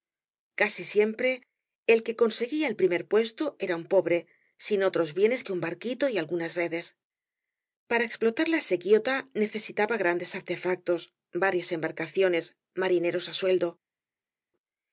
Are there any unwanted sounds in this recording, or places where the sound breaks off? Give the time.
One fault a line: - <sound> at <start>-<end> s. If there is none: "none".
none